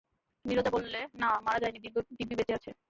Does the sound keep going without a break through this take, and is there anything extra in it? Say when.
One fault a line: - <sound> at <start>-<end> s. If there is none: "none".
none